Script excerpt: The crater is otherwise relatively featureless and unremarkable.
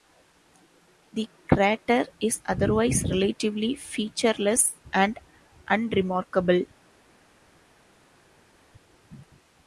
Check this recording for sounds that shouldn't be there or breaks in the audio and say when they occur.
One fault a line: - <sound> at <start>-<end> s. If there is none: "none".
none